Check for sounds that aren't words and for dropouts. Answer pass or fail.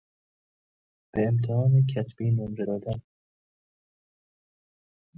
pass